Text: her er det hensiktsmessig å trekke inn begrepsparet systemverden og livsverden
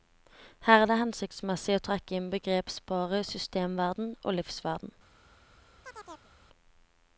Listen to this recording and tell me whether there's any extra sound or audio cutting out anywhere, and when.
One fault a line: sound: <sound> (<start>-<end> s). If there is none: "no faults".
sound: chirp (5.8-6.3 s)